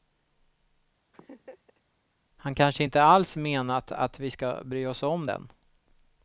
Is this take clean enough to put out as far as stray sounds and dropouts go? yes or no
no